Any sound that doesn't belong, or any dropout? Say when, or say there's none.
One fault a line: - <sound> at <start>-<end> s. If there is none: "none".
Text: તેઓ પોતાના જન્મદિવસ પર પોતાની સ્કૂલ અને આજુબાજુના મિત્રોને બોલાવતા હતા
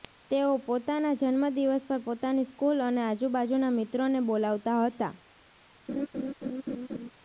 - laugh at 5.9-7.1 s